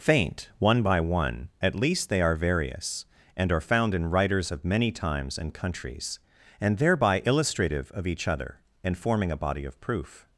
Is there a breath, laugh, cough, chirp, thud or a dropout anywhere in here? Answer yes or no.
no